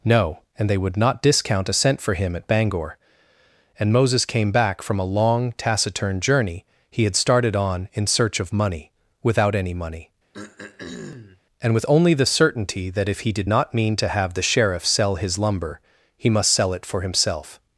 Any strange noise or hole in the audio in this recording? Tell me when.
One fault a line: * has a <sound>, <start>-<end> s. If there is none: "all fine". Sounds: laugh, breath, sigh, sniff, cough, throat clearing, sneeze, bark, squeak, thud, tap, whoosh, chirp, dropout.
* has a throat clearing, 10.3-11.4 s